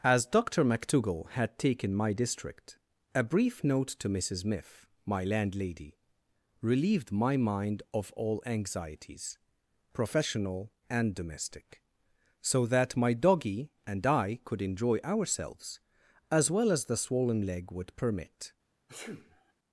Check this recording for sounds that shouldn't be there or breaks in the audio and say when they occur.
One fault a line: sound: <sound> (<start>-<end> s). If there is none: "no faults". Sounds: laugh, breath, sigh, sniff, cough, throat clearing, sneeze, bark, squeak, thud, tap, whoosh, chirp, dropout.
sound: sneeze (18.9-19.5 s)